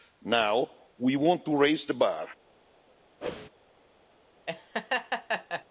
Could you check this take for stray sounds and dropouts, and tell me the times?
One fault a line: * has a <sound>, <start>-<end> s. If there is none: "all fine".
* has a whoosh, 3.2-3.5 s
* has a laugh, 4.5-5.6 s